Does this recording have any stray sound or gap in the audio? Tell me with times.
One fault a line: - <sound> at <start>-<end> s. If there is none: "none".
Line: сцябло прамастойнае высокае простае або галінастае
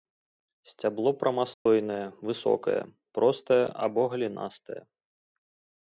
- dropout at 1.5-1.7 s